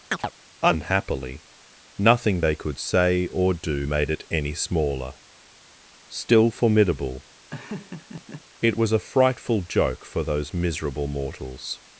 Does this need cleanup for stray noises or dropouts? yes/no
yes